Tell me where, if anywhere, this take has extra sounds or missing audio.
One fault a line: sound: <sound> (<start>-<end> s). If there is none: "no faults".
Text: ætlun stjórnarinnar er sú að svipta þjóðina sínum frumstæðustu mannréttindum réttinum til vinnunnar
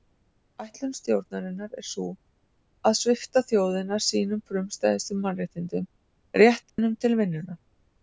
sound: dropout (6.7-6.8 s)